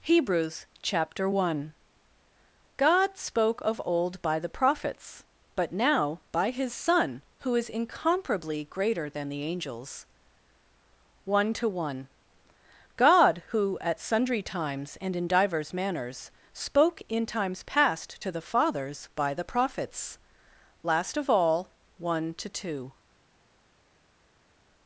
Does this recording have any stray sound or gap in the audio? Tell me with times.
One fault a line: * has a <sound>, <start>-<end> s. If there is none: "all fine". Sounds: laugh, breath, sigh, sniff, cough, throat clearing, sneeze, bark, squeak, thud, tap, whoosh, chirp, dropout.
all fine